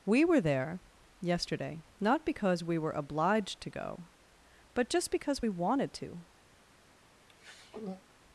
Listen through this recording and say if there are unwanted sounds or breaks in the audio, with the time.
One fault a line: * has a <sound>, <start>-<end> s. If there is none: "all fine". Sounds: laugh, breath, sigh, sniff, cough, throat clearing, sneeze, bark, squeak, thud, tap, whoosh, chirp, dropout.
* has a throat clearing, 7.3-8.0 s